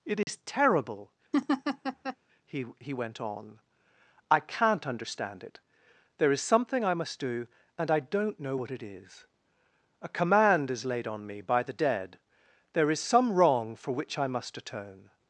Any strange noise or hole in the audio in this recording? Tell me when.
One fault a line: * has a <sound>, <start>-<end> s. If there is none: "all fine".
* has a dropout, 0.2-0.3 s
* has a laugh, 1.3-2.2 s